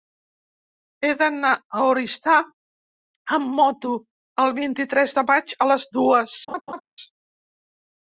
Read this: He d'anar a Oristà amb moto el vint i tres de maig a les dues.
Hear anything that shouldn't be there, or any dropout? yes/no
yes